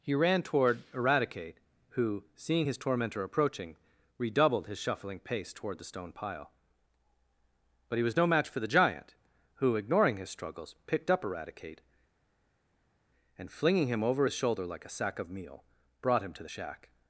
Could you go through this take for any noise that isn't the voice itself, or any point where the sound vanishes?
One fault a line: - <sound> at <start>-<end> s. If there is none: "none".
none